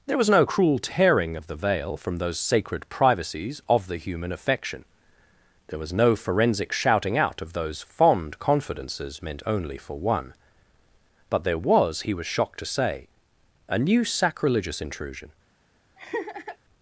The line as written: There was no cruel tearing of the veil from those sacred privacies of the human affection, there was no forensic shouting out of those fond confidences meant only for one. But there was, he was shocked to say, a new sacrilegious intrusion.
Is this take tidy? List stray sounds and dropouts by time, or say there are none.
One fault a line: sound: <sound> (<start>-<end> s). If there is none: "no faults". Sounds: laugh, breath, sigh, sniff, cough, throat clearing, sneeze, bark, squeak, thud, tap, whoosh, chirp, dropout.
sound: laugh (16.0-16.6 s)